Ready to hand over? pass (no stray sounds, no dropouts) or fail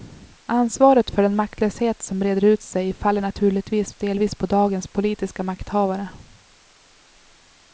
pass